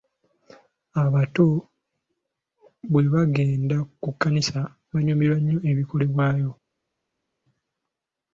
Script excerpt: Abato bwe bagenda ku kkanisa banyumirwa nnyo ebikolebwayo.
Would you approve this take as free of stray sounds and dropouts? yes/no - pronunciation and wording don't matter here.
yes